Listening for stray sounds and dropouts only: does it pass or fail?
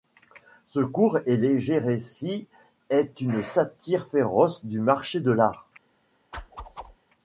fail